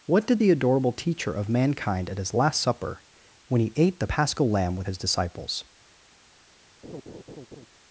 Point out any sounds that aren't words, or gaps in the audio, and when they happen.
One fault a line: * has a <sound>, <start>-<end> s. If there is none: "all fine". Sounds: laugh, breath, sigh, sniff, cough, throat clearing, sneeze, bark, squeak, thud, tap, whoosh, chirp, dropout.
* has a laugh, 6.8-7.7 s